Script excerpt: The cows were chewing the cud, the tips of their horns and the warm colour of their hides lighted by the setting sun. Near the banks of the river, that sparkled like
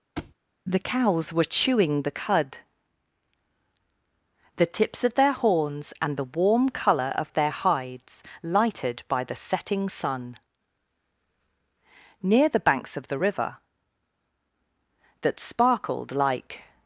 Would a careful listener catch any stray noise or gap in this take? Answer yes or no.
yes